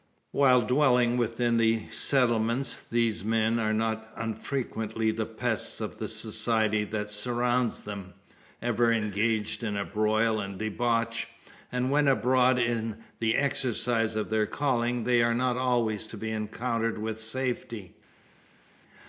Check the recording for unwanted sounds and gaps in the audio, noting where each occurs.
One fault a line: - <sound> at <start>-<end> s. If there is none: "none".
none